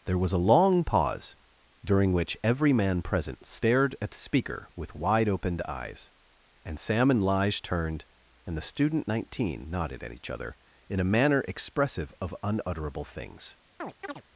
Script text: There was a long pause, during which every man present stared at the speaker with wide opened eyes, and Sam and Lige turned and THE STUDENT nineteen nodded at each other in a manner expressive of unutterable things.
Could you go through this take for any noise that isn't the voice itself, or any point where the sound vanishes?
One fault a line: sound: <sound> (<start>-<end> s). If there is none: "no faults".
sound: chirp (13.8-14.2 s)